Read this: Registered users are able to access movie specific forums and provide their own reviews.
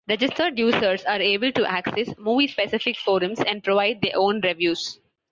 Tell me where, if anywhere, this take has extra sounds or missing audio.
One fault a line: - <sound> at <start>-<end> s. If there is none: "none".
none